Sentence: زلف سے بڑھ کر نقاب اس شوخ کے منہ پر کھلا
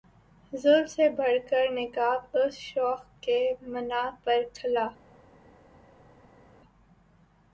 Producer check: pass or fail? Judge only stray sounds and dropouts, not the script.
pass